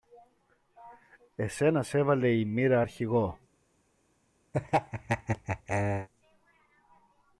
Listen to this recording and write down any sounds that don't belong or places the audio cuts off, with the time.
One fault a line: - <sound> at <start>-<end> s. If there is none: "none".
- laugh at 4.5-6.1 s